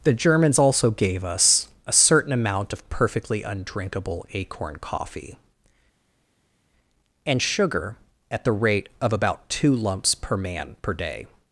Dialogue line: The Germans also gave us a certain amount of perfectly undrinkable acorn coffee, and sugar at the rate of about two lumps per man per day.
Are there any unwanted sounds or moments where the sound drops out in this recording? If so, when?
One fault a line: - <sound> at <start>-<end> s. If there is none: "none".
none